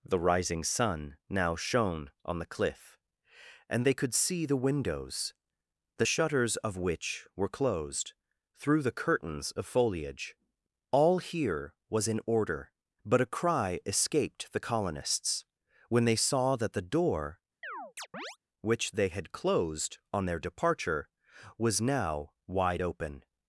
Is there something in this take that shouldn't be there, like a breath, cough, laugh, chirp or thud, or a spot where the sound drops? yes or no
yes